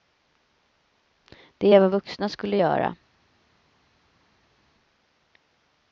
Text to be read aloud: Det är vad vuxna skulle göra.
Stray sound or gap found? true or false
false